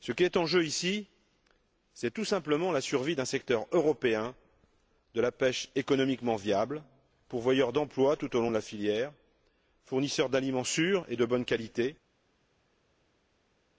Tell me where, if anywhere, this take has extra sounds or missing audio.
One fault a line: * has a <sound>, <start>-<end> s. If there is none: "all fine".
all fine